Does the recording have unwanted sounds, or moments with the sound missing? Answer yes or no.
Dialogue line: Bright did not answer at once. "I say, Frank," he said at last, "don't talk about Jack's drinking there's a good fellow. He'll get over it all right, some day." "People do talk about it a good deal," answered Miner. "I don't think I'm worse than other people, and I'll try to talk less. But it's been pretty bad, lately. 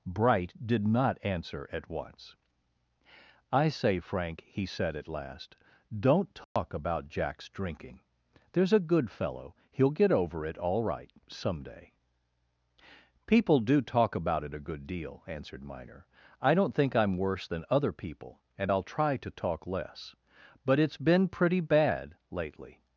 yes